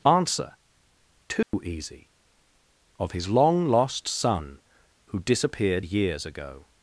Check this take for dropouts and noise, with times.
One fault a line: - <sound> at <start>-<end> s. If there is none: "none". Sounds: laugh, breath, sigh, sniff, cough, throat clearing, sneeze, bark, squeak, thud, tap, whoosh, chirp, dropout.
- dropout at 1.4-1.5 s